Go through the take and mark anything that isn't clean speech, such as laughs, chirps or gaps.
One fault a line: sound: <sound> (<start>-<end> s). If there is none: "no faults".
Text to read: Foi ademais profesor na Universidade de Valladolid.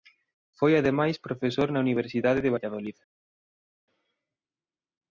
no faults